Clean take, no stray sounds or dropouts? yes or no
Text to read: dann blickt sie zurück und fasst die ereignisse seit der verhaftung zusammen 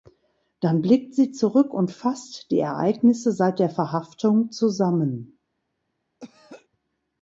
no